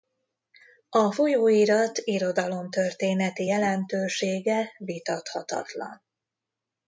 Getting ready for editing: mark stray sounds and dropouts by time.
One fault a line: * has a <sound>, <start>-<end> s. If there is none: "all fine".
all fine